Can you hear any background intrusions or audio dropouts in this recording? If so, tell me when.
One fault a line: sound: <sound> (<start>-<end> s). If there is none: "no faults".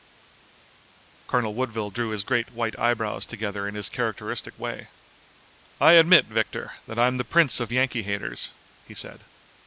no faults